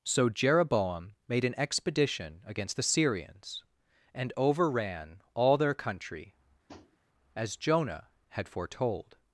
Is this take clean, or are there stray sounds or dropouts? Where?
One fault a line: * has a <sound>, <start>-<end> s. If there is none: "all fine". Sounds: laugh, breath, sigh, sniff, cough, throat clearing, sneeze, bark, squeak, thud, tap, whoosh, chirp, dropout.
* has a tap, 6.7-7.0 s